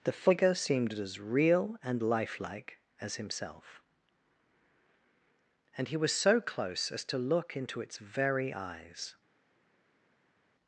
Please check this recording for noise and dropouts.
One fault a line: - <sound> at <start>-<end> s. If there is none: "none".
none